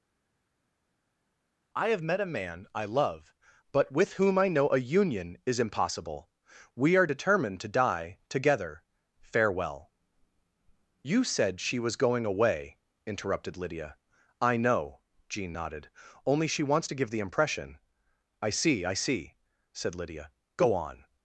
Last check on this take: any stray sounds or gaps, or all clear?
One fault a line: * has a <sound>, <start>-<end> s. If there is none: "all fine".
all fine